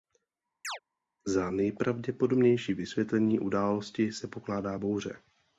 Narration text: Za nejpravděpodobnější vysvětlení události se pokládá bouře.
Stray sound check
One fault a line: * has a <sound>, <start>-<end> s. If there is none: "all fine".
* has a chirp, 0.6-0.8 s